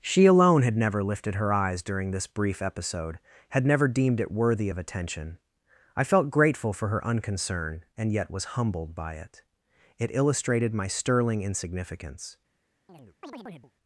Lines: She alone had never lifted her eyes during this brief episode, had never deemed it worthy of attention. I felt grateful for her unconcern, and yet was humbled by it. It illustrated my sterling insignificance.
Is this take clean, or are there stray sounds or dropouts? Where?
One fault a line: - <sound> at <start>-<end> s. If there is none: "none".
- chirp at 12.9-13.7 s